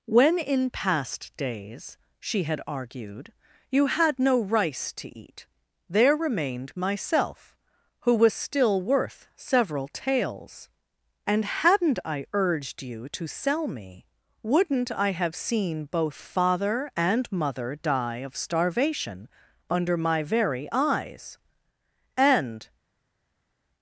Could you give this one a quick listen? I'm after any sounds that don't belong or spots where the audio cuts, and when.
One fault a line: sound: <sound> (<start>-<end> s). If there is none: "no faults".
no faults